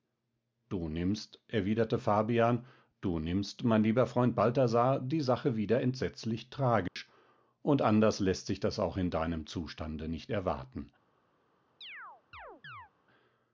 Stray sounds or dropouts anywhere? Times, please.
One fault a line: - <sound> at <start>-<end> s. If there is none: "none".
- dropout at 6.9-7.0 s
- chirp at 11.8-12.9 s